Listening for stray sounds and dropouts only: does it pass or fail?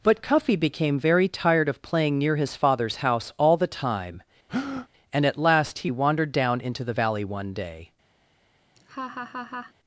fail